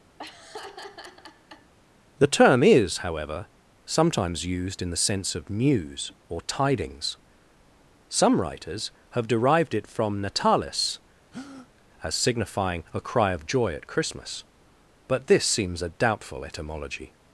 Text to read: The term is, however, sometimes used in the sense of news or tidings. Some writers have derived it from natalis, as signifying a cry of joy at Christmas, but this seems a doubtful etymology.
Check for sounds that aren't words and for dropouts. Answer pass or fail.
fail